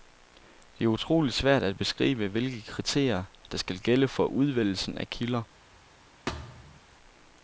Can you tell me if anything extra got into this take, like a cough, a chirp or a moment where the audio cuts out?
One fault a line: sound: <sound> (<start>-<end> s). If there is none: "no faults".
sound: thud (6.3-6.8 s)